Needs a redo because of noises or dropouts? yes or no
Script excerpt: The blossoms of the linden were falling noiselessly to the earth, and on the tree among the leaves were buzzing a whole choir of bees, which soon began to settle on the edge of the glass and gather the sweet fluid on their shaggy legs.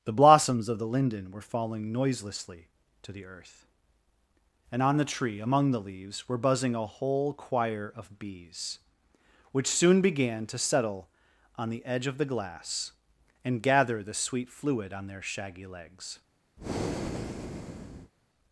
yes